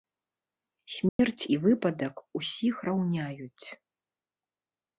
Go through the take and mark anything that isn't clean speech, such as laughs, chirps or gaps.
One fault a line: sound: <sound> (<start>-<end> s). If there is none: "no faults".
sound: dropout (1.1-1.2 s)